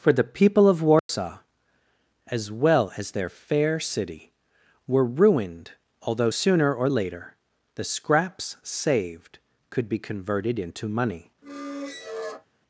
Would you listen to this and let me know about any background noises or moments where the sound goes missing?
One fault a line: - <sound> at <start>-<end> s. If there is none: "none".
- dropout at 1.0-1.1 s
- squeak at 11.4-12.5 s